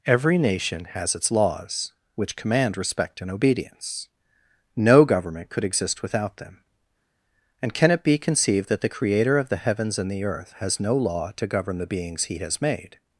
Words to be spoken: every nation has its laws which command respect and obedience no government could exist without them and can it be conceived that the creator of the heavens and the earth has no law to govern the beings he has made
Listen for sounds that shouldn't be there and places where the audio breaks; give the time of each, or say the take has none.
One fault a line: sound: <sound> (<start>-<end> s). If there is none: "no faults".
no faults